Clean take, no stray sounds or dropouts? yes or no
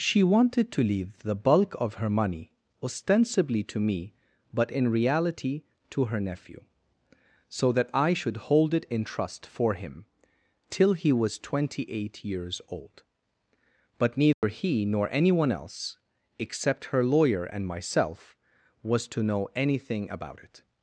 no